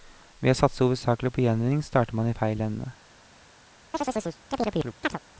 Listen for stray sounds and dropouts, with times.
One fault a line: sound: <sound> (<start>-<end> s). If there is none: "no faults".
sound: chirp (3.9-5.2 s)